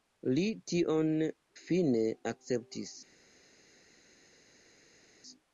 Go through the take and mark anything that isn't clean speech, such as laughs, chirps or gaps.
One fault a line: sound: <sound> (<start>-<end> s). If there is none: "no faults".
no faults